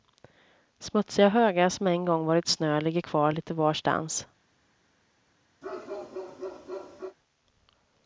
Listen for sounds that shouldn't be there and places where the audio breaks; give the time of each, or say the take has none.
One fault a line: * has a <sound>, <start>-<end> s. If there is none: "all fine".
* has a bark, 5.6-7.2 s